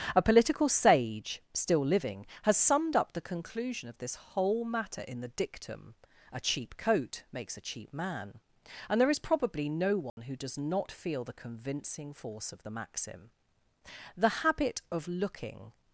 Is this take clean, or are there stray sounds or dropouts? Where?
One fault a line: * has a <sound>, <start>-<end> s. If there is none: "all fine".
* has a dropout, 10.1-10.2 s